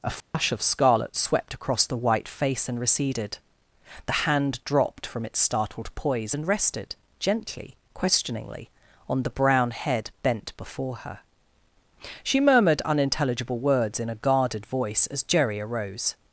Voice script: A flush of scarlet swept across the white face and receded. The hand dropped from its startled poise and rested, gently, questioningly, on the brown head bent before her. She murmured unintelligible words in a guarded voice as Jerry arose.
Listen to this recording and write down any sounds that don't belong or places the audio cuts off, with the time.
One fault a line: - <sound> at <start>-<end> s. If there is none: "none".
- dropout at 0.2-0.3 s